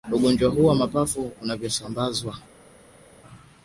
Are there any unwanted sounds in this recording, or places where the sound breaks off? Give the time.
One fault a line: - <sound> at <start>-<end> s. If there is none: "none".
none